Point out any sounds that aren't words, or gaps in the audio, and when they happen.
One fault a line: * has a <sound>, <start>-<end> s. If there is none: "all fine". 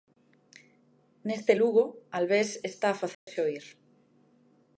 * has a dropout, 3.1-3.3 s